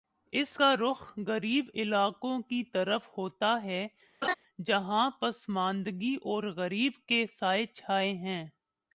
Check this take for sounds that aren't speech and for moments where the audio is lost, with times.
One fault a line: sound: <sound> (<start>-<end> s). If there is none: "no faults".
sound: laugh (4.2-4.3 s)